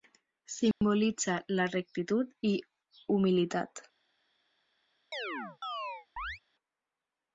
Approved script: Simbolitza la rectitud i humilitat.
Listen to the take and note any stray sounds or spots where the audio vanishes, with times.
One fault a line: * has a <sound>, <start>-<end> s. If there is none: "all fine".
* has a dropout, 0.7-0.8 s
* has a chirp, 5.1-6.4 s